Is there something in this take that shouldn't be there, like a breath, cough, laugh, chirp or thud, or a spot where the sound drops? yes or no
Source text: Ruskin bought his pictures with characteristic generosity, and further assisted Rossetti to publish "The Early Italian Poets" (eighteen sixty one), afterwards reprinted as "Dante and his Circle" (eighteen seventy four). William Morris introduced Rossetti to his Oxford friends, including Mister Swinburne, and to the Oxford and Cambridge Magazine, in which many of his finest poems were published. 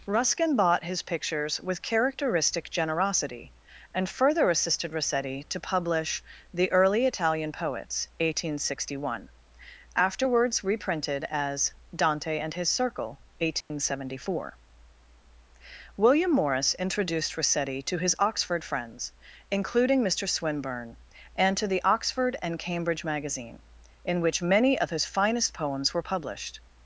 yes